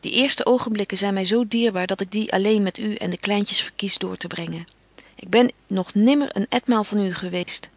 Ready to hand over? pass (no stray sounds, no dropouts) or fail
fail